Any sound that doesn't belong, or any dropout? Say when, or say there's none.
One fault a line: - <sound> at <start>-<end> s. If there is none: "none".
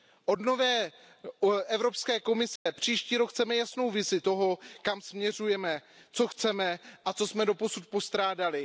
- dropout at 2.6-2.7 s